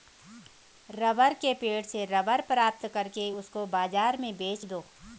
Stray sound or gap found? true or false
false